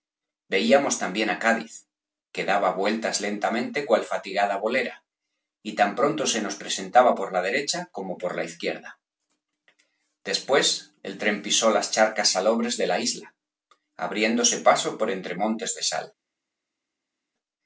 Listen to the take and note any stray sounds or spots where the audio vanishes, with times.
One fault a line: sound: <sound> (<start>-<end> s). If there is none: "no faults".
no faults